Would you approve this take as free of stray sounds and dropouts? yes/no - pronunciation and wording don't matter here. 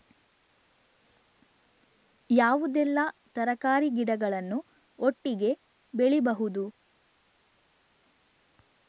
yes